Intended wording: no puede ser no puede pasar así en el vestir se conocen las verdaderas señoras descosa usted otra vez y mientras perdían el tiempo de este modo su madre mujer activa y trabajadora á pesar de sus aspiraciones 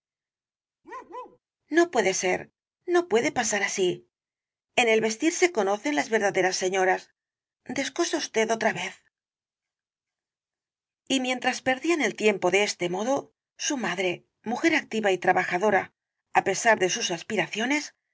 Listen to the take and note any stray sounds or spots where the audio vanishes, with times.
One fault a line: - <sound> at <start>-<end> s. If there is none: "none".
- bark at 0.8-1.4 s